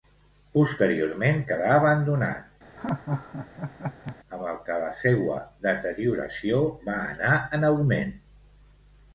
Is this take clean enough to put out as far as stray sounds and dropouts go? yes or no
no